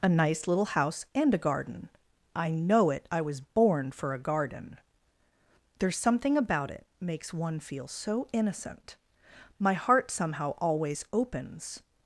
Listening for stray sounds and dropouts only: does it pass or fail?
pass